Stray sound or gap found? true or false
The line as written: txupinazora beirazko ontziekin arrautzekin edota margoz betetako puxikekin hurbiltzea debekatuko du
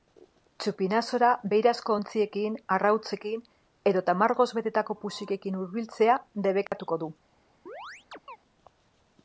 true